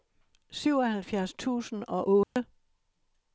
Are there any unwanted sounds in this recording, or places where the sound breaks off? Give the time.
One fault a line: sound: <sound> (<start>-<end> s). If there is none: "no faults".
sound: dropout (2.2-2.4 s)